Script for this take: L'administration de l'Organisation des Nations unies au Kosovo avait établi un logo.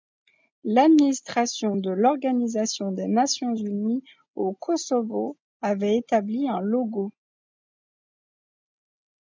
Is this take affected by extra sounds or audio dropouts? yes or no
no